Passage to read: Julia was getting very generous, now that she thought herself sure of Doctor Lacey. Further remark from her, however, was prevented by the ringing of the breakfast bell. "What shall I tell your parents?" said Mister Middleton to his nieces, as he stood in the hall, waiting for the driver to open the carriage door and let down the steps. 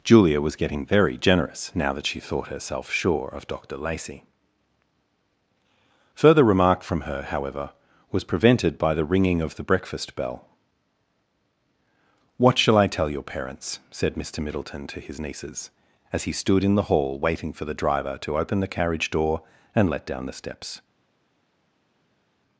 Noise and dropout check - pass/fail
pass